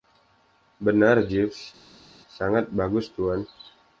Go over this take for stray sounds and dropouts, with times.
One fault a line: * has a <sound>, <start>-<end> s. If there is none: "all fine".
all fine